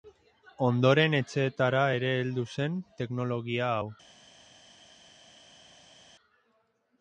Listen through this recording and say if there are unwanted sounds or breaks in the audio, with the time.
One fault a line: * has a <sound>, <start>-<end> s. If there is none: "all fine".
all fine